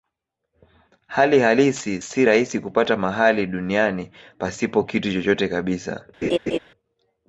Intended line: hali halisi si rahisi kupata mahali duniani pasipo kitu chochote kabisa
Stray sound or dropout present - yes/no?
yes